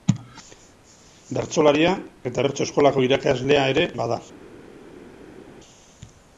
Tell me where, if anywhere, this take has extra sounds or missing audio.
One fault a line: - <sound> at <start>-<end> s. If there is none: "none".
none